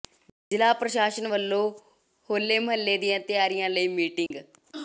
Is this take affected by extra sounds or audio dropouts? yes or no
yes